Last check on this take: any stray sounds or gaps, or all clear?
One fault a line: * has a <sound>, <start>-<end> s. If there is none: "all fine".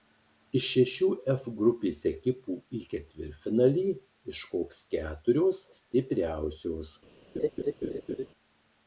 * has a laugh, 7.3-8.3 s